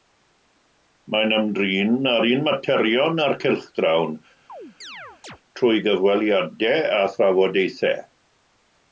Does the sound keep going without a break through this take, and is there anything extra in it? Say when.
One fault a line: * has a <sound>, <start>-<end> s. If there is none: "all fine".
* has a chirp, 4.5-5.4 s